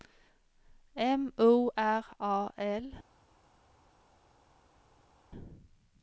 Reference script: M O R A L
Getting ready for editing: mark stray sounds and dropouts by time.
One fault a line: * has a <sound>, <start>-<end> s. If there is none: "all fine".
all fine